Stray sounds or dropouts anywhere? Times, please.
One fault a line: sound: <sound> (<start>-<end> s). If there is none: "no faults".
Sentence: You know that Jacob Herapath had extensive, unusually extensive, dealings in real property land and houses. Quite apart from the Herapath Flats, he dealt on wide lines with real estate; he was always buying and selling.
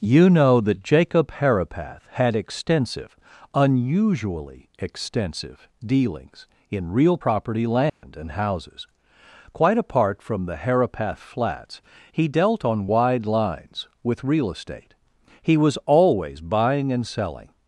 sound: dropout (7.9-8.0 s)